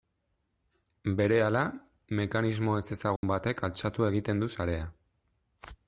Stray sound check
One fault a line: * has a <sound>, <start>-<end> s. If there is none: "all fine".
* has a dropout, 3.2-3.2 s